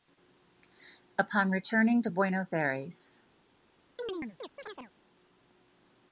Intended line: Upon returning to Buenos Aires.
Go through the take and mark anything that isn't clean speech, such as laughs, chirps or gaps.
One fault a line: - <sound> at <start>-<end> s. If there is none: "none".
- chirp at 4.0-4.9 s